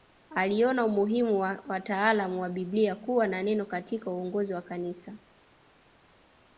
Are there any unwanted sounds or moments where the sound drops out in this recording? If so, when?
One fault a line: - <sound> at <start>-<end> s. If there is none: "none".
none